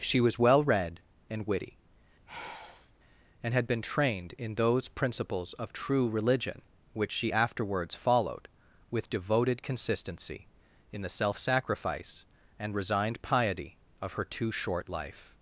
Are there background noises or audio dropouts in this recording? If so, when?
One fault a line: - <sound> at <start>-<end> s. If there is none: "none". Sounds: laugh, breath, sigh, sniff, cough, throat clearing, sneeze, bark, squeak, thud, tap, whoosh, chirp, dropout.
- sigh at 2.3-2.9 s